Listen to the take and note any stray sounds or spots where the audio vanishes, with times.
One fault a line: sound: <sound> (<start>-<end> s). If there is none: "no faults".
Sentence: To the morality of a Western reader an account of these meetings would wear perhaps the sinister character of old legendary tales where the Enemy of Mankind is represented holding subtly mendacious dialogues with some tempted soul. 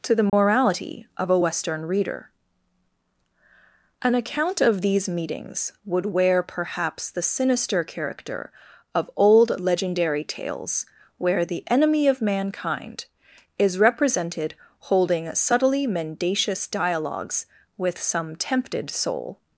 sound: dropout (0.3-0.3 s)